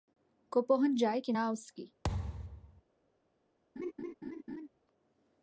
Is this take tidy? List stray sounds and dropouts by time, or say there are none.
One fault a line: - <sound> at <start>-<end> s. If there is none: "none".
- thud at 2.0-2.8 s
- laugh at 3.8-4.7 s